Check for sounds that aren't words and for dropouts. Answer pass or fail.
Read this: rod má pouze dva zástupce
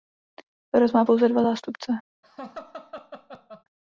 fail